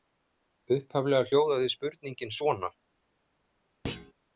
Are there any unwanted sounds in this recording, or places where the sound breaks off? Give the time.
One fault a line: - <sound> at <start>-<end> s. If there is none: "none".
- thud at 3.8-4.1 s